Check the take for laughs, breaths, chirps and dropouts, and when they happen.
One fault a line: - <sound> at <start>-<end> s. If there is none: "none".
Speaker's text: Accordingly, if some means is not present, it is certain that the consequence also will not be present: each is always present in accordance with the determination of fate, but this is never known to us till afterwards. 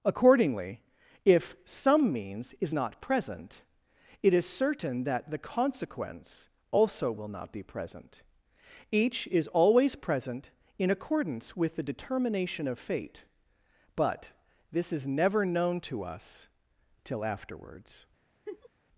- laugh at 18.5-18.7 s